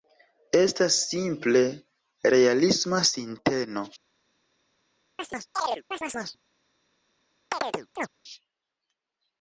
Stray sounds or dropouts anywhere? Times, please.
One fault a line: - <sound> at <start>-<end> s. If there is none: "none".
- chirp at 5.2-6.4 s
- chirp at 7.5-8.1 s